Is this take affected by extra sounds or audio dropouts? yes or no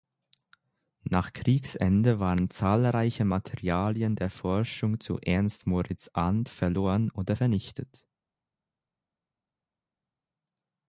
no